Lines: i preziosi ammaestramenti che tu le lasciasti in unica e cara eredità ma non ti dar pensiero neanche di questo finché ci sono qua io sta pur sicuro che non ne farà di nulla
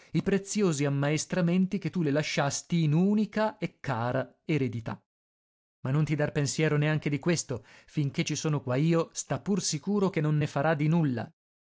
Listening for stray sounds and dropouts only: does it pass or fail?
pass